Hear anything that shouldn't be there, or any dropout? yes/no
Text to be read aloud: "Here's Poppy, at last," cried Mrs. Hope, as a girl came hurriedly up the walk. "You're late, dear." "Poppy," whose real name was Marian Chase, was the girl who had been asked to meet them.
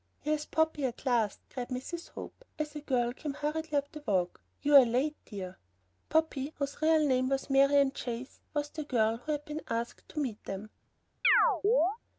yes